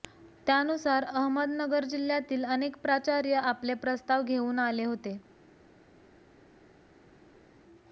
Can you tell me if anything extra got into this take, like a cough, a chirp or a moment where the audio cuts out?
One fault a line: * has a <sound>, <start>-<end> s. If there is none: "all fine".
all fine